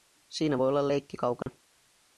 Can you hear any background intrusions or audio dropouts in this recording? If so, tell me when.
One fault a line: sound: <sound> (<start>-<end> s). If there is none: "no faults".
sound: dropout (1.4-1.5 s)